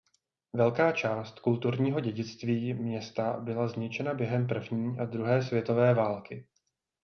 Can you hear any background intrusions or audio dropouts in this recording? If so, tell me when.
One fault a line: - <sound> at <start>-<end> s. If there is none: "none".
none